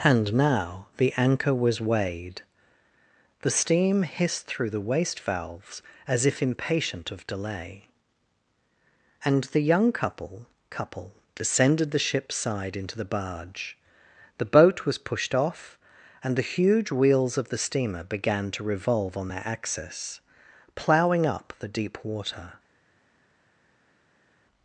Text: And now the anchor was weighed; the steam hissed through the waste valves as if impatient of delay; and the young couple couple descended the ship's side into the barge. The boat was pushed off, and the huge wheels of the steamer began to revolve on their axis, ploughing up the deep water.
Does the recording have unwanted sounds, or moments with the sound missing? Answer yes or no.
no